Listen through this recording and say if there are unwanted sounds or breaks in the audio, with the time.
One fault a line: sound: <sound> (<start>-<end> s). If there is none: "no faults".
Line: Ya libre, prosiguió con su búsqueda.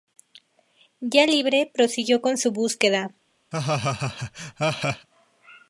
sound: laugh (3.5-5.1 s)